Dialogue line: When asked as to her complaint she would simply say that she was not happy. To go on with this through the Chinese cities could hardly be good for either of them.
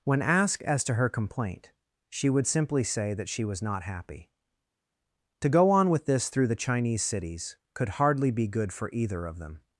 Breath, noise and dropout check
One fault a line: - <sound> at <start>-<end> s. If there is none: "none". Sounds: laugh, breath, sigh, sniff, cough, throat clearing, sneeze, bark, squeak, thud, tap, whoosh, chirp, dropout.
none